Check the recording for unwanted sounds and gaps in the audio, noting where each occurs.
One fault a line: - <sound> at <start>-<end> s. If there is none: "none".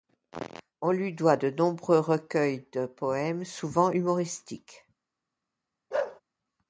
- bark at 5.9-6.2 s